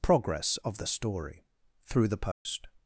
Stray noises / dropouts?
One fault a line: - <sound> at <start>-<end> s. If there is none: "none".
- dropout at 2.3-2.5 s